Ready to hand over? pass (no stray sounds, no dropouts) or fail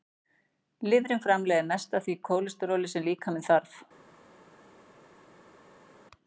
pass